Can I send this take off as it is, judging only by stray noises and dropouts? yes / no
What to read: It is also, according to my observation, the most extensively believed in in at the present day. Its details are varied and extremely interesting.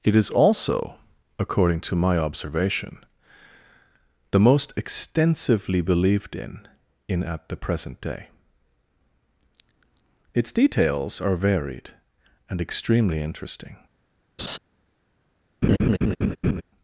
no